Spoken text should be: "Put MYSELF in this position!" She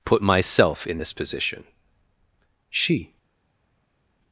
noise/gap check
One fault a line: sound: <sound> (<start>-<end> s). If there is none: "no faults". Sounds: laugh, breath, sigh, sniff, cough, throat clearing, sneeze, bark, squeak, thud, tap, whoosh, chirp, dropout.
no faults